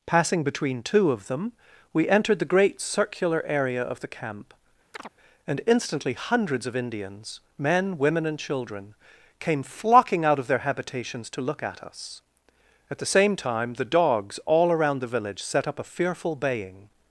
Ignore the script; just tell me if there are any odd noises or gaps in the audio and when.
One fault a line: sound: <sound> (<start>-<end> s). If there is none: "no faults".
sound: chirp (4.9-5.1 s)